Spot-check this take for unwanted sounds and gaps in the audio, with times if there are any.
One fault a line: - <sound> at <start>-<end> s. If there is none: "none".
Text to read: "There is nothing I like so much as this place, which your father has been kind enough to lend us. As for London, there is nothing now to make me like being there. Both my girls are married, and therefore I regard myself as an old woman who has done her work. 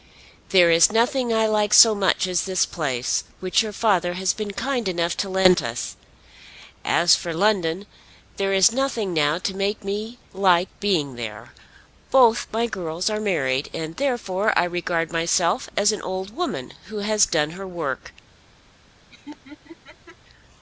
- laugh at 19.1-20.2 s